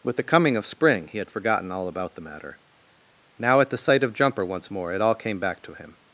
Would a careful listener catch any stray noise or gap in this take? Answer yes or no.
no